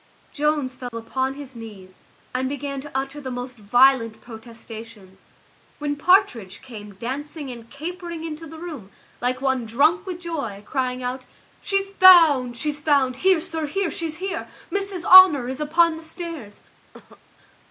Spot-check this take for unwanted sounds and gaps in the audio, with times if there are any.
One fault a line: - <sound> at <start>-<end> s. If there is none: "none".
- dropout at 0.9-0.9 s
- cough at 16.9-17.2 s